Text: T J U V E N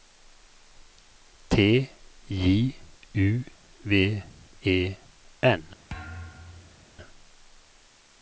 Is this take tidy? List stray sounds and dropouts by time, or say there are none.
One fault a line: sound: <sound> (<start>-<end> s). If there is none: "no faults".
sound: thud (5.9-6.9 s)